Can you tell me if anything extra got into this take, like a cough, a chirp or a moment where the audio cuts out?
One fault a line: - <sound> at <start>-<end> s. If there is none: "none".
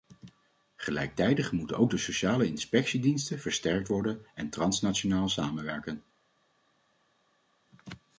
none